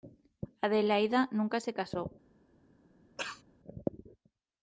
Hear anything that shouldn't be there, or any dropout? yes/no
yes